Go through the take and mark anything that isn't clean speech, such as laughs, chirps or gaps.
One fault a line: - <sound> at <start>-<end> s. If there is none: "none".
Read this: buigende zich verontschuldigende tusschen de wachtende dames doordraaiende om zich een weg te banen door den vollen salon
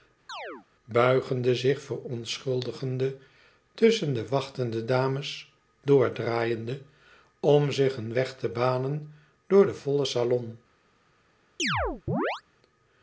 - chirp at 0.3-0.7 s
- chirp at 11.6-12.4 s